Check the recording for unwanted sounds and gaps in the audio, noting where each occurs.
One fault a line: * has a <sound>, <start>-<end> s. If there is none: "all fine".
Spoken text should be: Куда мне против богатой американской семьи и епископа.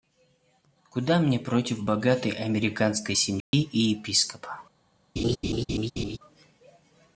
* has a dropout, 3.4-3.5 s
* has a laugh, 5.2-6.2 s